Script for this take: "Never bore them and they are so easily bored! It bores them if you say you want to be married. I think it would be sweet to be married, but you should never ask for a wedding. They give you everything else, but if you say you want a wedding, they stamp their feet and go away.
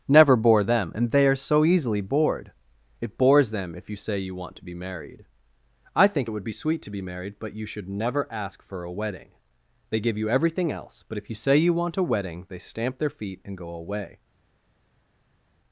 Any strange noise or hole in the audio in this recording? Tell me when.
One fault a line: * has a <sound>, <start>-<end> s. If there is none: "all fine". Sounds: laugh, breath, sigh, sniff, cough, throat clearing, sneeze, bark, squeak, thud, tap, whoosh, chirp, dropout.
all fine